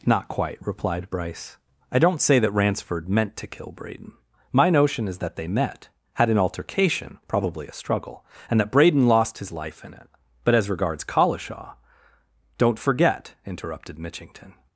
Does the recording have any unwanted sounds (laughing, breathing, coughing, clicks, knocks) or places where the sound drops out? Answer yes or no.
no